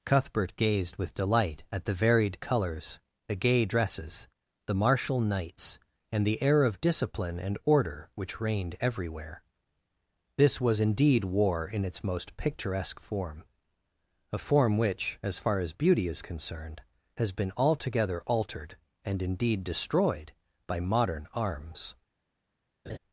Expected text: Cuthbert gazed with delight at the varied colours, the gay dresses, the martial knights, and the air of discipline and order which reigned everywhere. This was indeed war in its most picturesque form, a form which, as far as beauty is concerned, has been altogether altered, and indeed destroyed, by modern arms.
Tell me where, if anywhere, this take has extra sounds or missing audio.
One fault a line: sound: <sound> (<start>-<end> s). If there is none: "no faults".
sound: laugh (22.9-23.0 s)